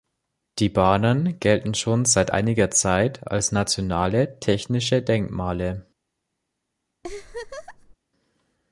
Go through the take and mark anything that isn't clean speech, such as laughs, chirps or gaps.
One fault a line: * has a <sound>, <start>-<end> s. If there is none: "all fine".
* has a laugh, 7.0-8.0 s